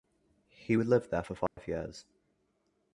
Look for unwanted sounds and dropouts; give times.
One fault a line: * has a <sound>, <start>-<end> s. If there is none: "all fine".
* has a dropout, 1.5-1.6 s